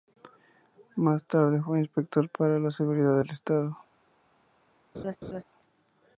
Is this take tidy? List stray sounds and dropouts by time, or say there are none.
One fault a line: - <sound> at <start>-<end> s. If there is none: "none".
- laugh at 4.9-5.4 s